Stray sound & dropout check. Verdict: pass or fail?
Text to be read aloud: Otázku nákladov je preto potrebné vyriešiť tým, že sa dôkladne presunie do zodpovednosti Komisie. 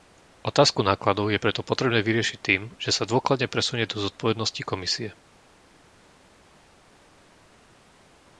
pass